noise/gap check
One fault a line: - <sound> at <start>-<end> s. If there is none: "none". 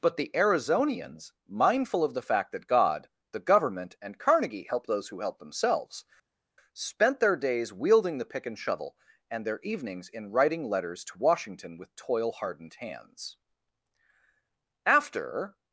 none